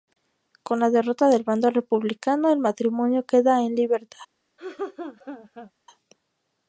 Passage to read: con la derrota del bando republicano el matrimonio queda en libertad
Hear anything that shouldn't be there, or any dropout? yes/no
yes